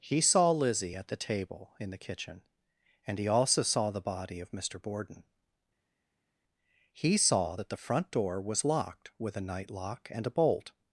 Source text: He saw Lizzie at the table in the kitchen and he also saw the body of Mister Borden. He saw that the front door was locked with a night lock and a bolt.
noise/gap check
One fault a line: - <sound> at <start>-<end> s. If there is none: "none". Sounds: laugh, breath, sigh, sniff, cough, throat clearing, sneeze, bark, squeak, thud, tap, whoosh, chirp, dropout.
none